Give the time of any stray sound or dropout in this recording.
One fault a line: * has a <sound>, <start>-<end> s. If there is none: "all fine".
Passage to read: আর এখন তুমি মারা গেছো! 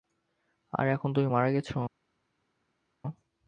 all fine